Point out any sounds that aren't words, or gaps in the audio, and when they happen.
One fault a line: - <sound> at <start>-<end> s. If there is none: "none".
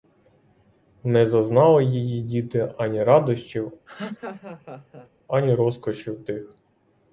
- laugh at 3.9-5.1 s